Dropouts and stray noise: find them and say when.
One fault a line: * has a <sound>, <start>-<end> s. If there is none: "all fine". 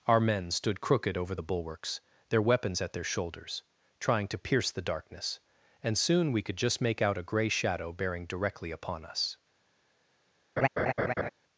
* has a laugh, 10.6-11.3 s